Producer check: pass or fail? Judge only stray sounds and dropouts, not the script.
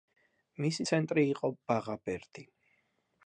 pass